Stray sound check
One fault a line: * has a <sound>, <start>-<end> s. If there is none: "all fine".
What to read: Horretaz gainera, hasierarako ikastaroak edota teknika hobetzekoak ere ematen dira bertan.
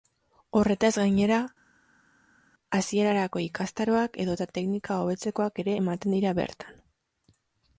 all fine